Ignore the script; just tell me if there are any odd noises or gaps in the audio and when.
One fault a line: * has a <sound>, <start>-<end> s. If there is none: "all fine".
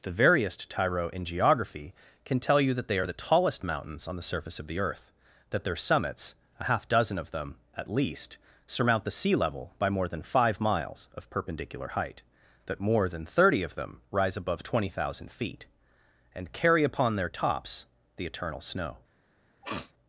* has a sniff, 19.6-19.9 s